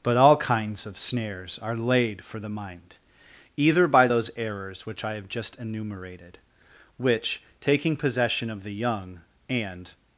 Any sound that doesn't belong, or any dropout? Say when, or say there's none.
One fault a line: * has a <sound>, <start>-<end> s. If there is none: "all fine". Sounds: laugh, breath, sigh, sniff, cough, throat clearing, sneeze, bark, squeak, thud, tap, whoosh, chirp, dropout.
all fine